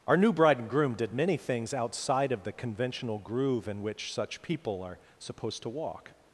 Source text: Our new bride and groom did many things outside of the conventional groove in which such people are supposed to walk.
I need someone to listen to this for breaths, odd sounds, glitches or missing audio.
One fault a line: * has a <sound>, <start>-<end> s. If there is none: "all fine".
all fine